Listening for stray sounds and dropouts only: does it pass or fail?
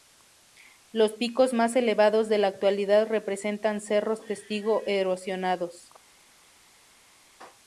pass